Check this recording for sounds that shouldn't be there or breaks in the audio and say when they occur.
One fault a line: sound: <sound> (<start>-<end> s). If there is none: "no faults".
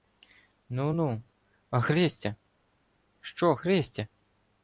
no faults